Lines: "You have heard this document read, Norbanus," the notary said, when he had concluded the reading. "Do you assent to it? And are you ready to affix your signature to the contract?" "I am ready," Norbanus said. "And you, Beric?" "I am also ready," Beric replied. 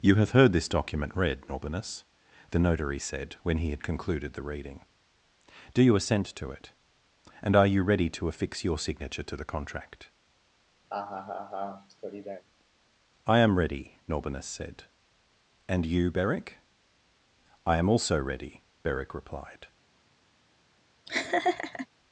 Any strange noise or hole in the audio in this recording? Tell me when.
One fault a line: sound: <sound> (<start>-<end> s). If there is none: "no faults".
sound: laugh (10.9-12.4 s)
sound: laugh (21.1-21.9 s)